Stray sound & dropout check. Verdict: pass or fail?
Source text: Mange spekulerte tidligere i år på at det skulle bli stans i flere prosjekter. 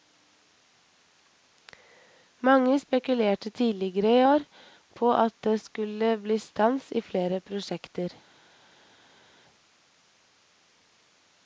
pass